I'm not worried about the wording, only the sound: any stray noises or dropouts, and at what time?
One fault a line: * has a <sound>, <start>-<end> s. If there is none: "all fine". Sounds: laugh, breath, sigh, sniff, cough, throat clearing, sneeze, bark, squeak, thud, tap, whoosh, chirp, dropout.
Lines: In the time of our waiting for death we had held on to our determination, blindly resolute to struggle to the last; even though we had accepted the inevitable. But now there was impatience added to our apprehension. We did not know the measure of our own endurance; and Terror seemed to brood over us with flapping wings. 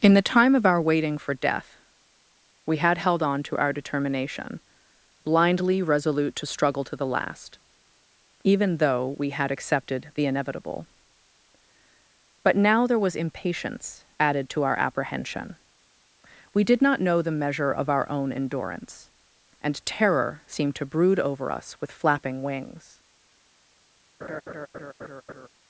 * has a laugh, 24.2-25.5 s